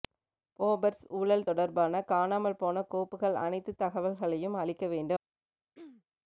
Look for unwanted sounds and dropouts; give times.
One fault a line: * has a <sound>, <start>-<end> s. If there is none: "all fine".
* has a throat clearing, 5.7-6.0 s